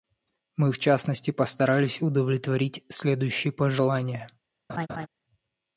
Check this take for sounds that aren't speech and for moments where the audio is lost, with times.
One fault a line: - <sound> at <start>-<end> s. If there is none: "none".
- laugh at 4.7-5.1 s